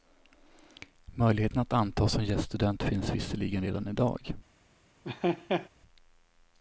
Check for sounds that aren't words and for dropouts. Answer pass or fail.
fail